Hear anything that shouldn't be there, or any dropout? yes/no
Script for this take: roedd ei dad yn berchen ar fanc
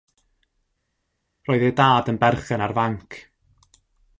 no